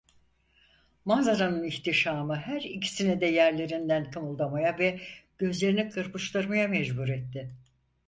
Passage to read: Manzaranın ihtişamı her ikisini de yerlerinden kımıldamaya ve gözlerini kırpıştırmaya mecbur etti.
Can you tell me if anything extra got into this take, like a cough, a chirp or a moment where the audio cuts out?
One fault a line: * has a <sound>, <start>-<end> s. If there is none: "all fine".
all fine